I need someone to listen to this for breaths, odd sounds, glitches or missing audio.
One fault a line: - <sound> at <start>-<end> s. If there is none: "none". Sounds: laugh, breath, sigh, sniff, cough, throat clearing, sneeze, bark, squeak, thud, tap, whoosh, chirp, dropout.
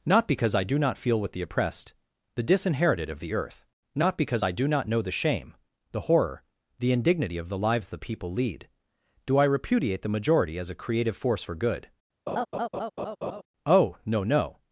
- laugh at 12.3-13.4 s